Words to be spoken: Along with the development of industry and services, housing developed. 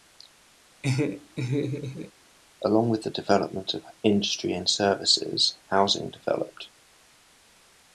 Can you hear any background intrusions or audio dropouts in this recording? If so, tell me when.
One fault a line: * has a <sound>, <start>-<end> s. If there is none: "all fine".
* has a laugh, 0.8-2.1 s